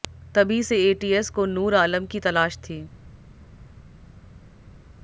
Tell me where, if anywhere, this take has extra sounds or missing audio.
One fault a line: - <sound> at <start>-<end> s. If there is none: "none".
none